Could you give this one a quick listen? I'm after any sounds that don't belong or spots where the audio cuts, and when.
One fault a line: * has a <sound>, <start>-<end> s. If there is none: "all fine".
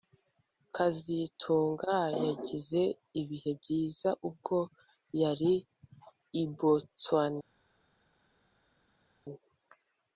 all fine